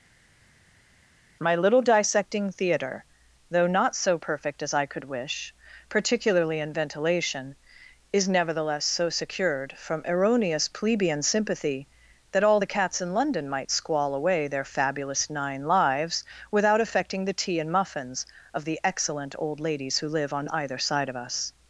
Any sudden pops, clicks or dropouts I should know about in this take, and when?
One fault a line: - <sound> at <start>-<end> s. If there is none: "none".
none